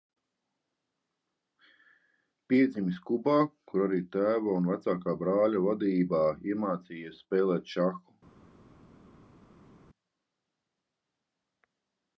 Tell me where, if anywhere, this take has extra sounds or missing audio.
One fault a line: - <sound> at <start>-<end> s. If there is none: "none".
none